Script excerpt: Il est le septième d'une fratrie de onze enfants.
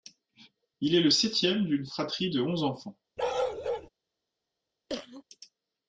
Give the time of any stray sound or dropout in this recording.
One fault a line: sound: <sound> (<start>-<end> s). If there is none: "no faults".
sound: bark (3.2-3.9 s)
sound: cough (4.9-5.2 s)